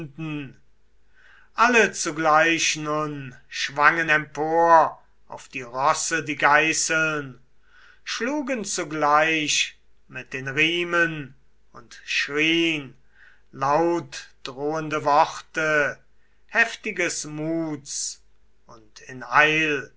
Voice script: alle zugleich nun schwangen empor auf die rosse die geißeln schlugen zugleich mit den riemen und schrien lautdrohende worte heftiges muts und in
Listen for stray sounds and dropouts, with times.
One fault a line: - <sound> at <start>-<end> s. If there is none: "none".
none